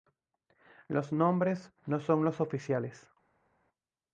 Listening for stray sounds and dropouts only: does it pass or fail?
pass